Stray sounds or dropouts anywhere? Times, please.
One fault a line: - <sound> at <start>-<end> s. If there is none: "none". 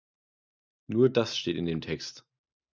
none